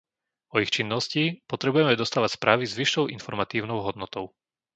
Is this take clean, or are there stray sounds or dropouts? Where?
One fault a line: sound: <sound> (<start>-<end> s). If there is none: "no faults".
no faults